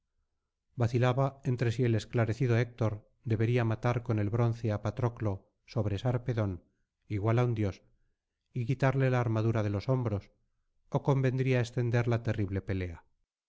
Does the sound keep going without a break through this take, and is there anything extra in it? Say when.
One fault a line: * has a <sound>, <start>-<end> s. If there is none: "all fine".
all fine